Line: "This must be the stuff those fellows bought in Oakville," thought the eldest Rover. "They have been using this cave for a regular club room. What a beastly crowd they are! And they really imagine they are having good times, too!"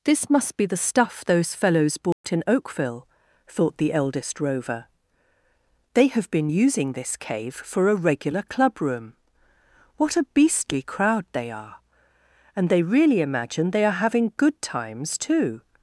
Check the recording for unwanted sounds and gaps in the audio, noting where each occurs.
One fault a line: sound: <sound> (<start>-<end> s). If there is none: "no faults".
sound: dropout (2.1-2.2 s)